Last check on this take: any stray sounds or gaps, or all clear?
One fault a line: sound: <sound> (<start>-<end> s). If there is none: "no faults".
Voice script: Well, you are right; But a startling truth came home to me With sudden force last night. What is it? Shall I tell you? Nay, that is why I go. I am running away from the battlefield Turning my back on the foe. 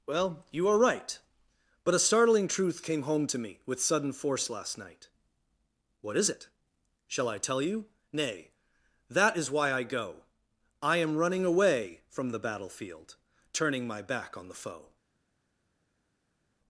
no faults